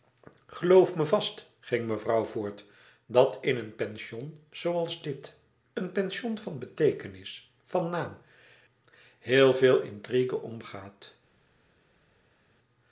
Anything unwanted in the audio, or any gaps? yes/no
no